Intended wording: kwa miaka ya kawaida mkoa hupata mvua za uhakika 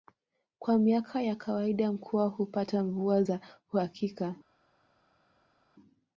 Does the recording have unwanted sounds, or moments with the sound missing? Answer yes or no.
no